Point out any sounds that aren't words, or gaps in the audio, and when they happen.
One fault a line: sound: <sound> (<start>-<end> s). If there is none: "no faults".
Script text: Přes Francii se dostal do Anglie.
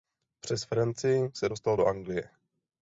no faults